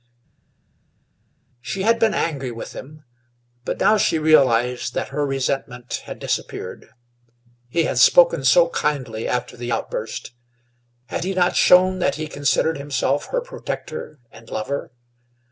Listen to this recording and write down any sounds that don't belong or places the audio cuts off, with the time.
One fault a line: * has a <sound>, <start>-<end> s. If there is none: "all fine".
all fine